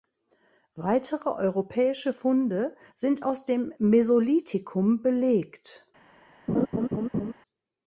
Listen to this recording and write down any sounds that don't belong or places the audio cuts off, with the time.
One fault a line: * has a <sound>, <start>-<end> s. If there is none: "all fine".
* has a laugh, 6.5-7.3 s